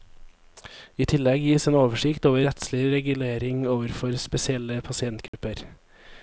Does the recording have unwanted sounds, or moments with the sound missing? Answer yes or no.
yes